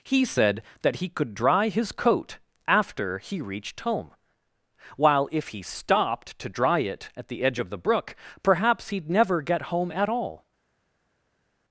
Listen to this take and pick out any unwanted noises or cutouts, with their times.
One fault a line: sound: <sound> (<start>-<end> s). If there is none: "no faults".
no faults